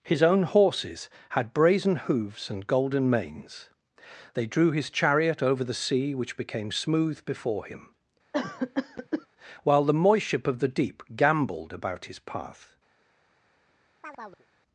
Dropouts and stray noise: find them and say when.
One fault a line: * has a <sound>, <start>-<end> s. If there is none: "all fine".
* has a cough, 8.3-9.3 s
* has a chirp, 14.0-14.5 s